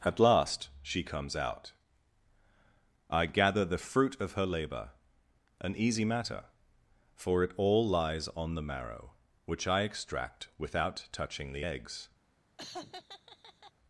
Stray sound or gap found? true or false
true